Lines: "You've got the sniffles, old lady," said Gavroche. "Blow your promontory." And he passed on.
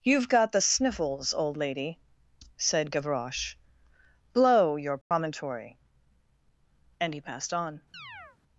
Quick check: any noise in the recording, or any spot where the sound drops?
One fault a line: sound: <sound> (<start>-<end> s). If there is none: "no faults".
sound: dropout (5.0-5.1 s)
sound: chirp (7.9-8.4 s)